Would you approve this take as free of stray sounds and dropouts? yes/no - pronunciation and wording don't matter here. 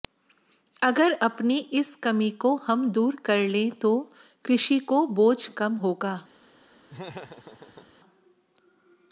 no